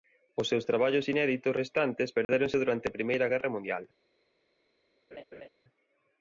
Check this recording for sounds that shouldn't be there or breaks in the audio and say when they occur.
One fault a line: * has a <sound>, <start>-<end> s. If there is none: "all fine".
* has a dropout, 2.2-2.3 s
* has a laugh, 5.1-5.5 s